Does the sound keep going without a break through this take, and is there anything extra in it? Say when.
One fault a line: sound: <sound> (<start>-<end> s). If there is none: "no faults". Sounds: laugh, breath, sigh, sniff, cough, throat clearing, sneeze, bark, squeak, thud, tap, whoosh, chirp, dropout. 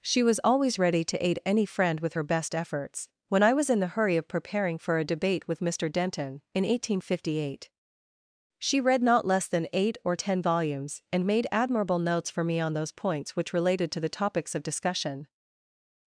no faults